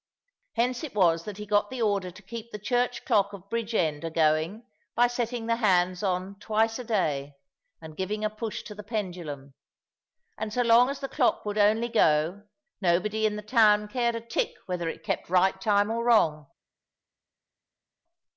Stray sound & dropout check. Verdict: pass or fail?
pass